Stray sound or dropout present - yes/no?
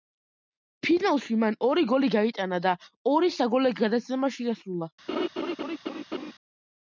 yes